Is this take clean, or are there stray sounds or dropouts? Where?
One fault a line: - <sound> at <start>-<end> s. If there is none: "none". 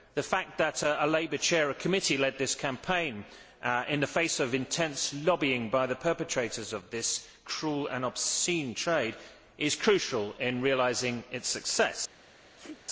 - sneeze at 12.6-12.8 s